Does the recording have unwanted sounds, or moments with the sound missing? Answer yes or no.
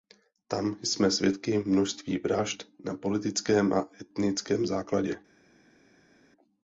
no